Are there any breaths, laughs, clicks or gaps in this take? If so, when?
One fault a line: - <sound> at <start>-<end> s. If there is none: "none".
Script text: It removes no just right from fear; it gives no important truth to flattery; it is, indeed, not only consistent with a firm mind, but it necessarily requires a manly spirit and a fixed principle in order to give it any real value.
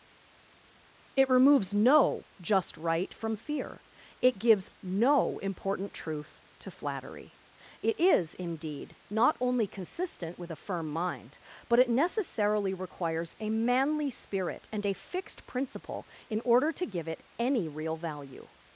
none